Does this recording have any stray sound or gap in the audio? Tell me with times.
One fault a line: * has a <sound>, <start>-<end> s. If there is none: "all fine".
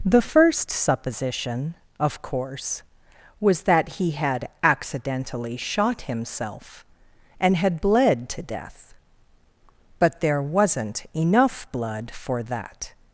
all fine